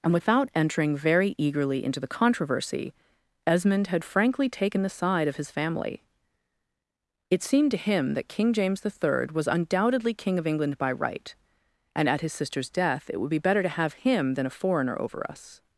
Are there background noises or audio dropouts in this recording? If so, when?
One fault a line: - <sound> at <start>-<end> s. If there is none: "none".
none